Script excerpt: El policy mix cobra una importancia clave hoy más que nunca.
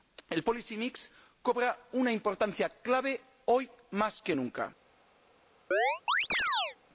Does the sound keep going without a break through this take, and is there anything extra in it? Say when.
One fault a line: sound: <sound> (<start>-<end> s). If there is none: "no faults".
sound: chirp (5.7-6.8 s)